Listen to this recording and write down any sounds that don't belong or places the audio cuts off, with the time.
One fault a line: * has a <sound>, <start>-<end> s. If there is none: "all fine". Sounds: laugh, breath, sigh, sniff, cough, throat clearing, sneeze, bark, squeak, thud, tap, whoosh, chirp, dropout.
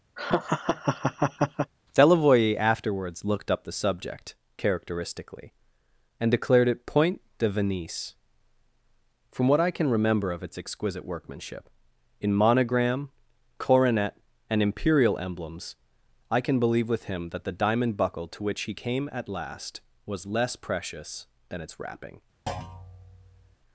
* has a laugh, 0.2-1.7 s
* has a thud, 22.5-23.6 s